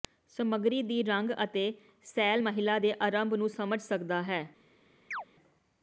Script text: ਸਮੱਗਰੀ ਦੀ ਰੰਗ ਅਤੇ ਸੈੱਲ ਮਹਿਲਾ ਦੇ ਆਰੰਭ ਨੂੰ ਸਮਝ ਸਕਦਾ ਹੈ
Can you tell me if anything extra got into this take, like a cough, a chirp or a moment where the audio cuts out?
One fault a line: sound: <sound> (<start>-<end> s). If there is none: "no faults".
sound: chirp (5.1-5.3 s)